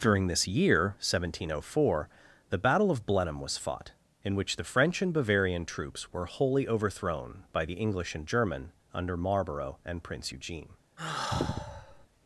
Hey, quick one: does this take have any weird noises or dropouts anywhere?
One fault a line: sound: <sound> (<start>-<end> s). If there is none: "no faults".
sound: sigh (11.0-12.1 s)